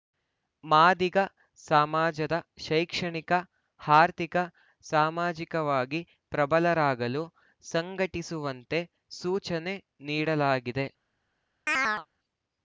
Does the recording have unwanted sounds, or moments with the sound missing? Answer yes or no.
yes